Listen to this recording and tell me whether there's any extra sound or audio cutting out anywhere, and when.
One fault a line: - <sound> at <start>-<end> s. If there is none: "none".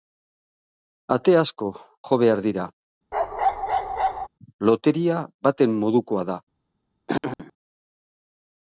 - bark at 3.1-4.3 s
- throat clearing at 7.1-7.5 s